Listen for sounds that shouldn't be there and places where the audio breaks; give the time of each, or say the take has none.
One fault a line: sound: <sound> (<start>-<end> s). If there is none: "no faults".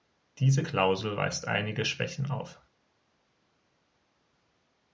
no faults